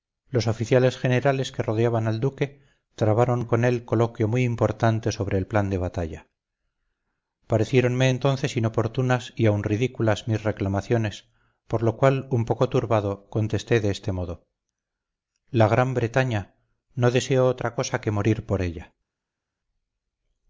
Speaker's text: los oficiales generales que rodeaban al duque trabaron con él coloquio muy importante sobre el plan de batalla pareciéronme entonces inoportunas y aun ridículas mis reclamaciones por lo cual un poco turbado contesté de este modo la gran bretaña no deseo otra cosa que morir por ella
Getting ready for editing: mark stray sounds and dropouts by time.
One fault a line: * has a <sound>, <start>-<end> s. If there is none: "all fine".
all fine